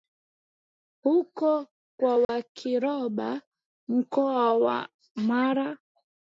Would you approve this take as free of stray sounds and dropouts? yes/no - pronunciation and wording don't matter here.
no